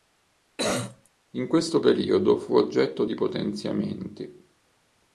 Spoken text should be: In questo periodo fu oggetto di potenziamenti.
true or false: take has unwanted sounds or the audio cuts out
true